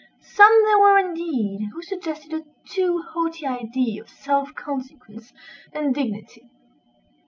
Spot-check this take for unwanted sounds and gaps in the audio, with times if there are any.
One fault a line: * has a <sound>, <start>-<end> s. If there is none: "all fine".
all fine